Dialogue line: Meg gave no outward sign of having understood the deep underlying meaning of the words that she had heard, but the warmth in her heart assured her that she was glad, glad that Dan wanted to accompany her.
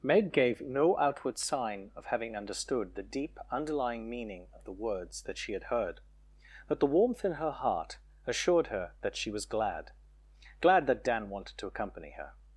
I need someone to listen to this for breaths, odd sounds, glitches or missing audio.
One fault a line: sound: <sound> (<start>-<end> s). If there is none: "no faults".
no faults